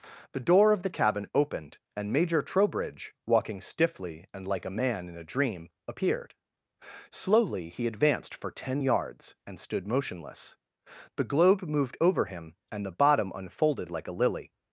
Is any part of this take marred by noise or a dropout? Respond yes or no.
no